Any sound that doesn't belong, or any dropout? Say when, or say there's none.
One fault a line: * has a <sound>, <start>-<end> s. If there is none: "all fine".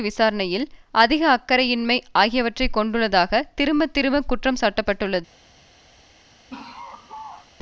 * has a laugh, 6.5-7.5 s